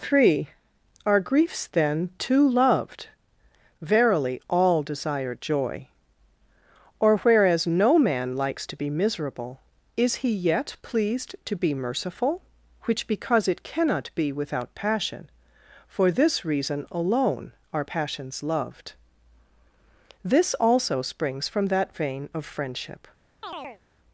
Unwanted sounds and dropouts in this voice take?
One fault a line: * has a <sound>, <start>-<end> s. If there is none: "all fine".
* has a chirp, 23.4-23.8 s